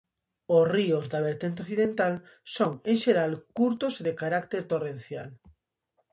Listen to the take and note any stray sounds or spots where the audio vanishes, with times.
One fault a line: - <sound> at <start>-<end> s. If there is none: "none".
none